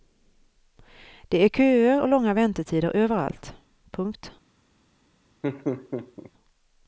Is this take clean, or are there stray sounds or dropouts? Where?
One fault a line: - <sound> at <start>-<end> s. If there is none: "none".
- laugh at 5.4-6.3 s